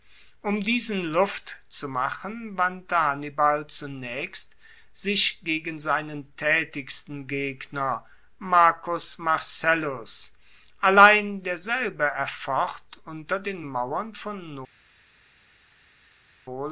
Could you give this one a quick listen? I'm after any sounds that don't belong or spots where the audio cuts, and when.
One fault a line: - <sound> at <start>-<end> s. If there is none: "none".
none